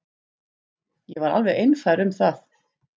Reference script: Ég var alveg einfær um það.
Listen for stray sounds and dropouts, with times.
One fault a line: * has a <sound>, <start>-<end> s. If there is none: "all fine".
all fine